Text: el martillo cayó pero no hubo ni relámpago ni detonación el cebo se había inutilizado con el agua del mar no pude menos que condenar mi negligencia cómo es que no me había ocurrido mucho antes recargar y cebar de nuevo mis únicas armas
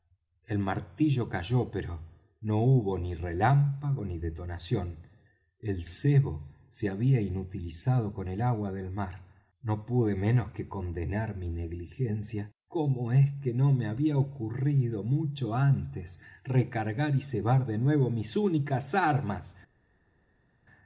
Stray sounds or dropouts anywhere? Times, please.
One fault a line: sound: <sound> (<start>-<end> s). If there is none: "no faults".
no faults